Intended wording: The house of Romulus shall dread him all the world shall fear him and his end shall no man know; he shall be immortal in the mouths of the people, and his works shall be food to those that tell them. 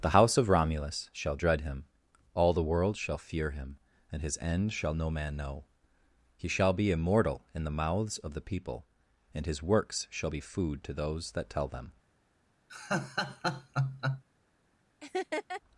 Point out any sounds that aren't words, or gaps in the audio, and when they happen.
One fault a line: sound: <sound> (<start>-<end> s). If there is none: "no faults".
sound: laugh (12.7-14.2 s)
sound: laugh (15.0-15.6 s)